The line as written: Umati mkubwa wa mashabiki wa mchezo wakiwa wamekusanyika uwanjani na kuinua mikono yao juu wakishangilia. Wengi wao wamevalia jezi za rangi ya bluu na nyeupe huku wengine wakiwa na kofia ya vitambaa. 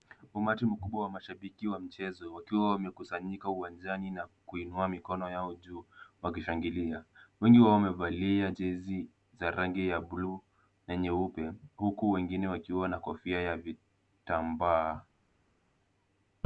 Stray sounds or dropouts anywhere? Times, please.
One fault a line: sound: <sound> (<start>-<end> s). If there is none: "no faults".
no faults